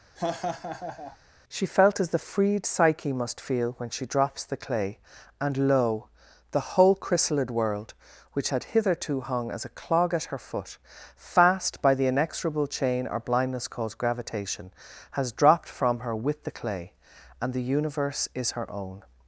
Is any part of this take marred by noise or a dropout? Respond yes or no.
yes